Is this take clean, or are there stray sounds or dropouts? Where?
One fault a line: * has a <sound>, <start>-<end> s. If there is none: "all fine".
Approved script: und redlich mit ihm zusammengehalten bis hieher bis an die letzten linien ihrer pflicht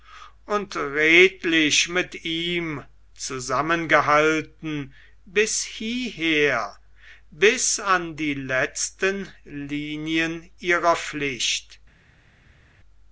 all fine